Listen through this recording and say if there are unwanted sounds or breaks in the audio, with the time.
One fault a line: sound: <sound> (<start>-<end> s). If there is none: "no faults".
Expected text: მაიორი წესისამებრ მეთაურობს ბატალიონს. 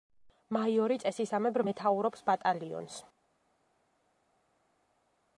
no faults